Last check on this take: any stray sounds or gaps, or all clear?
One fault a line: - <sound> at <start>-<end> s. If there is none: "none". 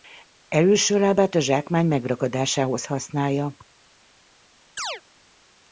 - chirp at 4.8-5.0 s